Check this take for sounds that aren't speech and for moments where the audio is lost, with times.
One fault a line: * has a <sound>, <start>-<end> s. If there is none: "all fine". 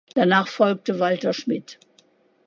all fine